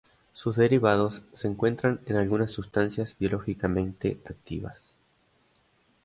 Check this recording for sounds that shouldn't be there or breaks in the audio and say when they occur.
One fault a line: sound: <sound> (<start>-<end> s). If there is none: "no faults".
no faults